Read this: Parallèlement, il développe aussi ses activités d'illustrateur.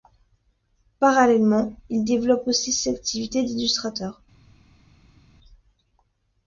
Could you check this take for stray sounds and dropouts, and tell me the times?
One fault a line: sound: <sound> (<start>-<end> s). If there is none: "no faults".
no faults